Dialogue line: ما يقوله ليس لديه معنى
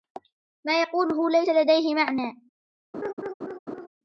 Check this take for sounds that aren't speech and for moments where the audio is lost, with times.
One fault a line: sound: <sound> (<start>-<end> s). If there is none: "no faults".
sound: laugh (2.9-3.9 s)